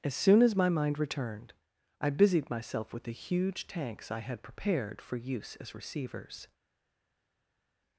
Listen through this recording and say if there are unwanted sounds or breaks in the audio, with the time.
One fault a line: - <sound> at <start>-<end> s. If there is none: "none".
none